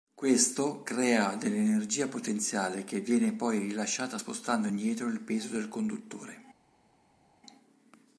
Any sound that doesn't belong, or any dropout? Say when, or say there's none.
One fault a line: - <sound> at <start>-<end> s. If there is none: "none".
none